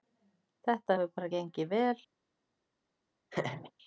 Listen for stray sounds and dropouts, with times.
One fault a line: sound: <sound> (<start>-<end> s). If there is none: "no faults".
sound: laugh (3.3-3.7 s)